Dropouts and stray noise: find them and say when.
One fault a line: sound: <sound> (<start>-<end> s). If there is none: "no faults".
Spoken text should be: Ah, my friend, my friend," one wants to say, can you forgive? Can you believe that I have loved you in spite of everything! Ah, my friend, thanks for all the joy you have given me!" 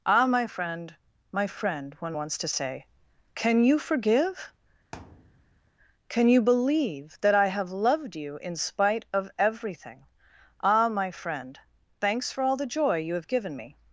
sound: thud (4.9-5.7 s)